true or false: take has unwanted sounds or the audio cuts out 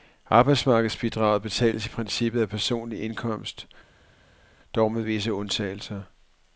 false